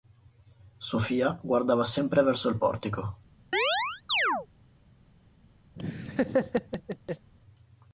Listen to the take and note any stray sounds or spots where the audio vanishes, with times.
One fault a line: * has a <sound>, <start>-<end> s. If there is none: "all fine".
* has a chirp, 3.5-4.5 s
* has a laugh, 5.8-7.3 s